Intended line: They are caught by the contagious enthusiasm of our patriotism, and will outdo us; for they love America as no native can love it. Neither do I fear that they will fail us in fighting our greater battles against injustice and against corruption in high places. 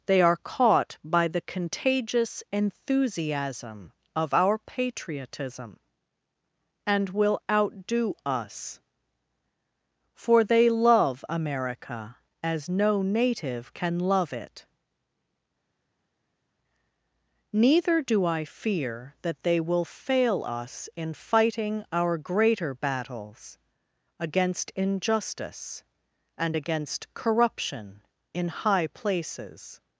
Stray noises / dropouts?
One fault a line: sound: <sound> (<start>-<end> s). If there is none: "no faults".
no faults